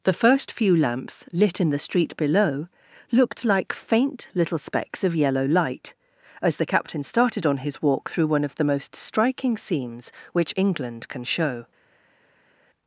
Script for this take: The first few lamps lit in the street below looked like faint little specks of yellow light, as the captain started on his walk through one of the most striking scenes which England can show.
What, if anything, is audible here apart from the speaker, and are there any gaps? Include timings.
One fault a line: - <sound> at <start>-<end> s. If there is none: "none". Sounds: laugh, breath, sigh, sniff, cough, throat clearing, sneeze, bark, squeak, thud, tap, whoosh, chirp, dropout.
none